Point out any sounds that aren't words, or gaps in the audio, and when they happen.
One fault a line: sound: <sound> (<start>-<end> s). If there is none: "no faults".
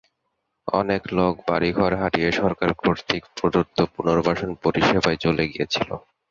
no faults